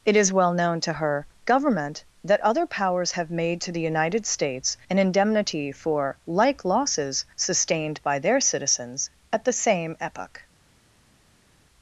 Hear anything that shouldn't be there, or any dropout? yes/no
no